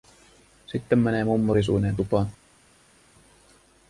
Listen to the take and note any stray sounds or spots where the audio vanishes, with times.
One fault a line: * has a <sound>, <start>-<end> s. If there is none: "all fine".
all fine